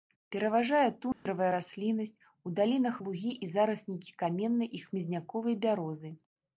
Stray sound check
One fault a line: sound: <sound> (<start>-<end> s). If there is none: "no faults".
sound: dropout (1.1-1.3 s)